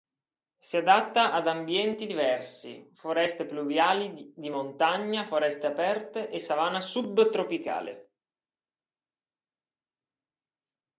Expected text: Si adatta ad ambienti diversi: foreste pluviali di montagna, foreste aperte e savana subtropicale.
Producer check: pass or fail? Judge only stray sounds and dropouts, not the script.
pass